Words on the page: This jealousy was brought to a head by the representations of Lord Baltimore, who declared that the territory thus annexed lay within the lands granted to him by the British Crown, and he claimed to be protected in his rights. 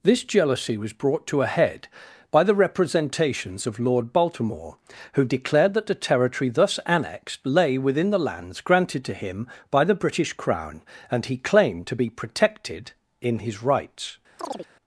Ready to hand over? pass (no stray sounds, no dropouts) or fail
fail